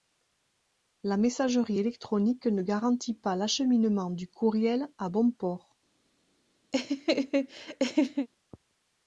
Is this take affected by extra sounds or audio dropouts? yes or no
yes